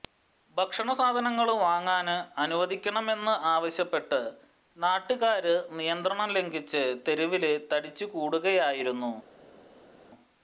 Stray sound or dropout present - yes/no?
no